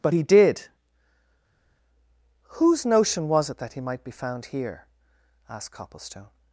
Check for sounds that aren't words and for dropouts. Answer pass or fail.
pass